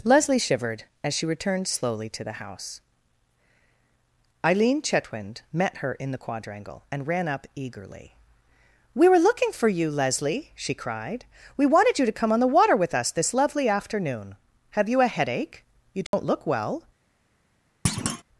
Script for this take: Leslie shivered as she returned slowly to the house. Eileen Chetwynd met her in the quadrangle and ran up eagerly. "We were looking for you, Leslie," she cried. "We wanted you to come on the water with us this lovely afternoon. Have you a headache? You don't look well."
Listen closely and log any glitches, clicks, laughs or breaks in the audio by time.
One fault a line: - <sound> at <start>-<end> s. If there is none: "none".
- dropout at 16.1-16.1 s
- thud at 17.8-18.2 s